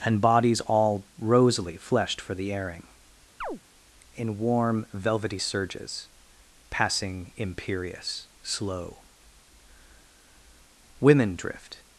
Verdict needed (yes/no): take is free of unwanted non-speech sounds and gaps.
no